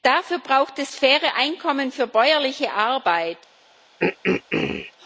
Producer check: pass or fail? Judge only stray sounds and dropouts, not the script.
fail